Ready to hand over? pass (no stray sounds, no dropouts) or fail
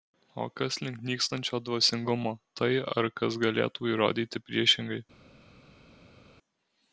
pass